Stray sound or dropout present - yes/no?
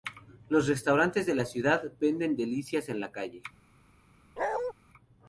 yes